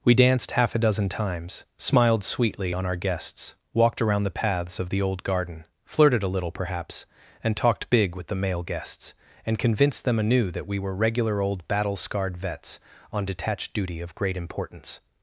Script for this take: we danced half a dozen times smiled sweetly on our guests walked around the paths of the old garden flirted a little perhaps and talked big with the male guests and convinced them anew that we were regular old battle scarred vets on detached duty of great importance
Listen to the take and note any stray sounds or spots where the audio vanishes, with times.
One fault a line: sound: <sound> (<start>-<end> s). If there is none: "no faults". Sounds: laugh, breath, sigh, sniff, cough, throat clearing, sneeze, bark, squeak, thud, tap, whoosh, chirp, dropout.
no faults